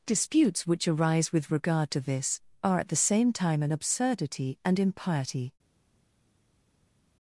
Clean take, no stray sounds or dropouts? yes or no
yes